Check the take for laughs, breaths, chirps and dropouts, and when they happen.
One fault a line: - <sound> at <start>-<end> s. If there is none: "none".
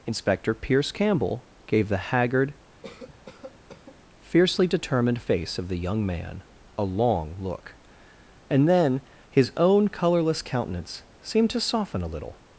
- cough at 2.8-4.0 s